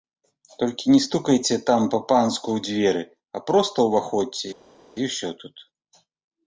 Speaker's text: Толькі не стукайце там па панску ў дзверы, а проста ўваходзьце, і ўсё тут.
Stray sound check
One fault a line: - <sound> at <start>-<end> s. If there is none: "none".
none